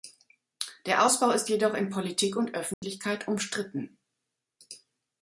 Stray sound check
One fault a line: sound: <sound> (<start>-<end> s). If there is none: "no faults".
sound: dropout (2.7-2.8 s)